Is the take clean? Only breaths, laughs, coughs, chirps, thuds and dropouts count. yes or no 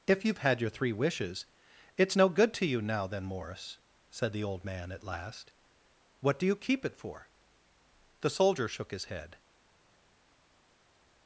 yes